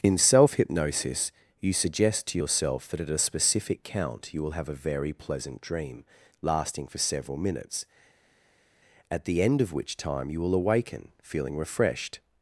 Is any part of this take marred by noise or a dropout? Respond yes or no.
no